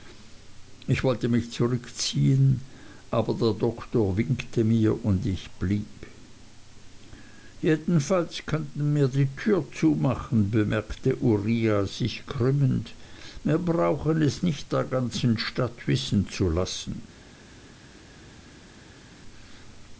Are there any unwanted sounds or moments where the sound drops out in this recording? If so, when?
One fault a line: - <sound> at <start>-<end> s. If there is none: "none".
none